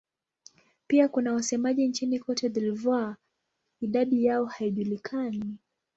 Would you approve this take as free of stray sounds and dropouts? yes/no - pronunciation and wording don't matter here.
yes